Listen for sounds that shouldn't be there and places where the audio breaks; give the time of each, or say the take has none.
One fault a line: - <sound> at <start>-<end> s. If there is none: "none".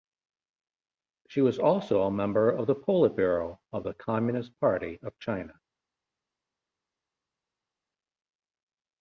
none